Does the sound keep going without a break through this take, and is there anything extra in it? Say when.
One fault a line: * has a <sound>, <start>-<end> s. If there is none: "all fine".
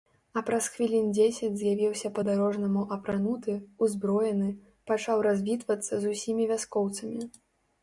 all fine